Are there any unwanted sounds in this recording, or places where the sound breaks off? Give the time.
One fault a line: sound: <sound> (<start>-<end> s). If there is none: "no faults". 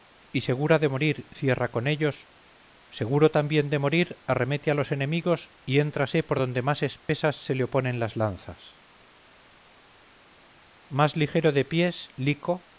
sound: dropout (7.0-7.1 s)